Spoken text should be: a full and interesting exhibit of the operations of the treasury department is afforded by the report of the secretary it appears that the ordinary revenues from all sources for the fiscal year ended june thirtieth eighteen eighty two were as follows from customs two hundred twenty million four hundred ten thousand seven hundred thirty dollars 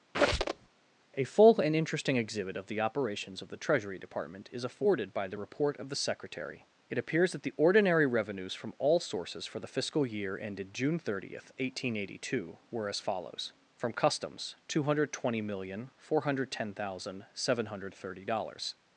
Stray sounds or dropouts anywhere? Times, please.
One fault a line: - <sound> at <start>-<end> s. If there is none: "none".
- squeak at 0.1-0.7 s